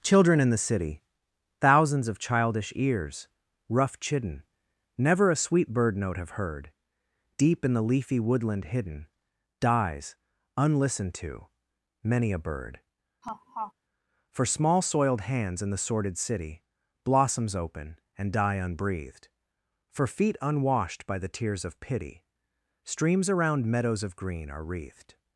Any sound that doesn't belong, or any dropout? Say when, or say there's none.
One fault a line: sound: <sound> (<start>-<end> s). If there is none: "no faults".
sound: laugh (13.2-13.7 s)